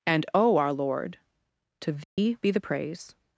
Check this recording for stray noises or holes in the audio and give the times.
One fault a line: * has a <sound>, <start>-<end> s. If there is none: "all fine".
* has a dropout, 2.0-2.2 s